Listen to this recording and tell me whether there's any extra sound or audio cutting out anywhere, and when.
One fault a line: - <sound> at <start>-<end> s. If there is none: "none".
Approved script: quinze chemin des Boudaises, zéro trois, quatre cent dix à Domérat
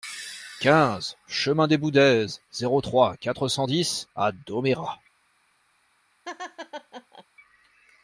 - laugh at 6.2-7.2 s